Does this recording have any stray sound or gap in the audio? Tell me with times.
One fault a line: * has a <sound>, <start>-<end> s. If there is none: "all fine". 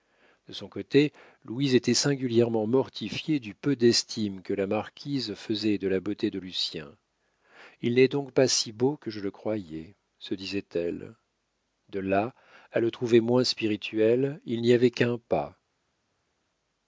all fine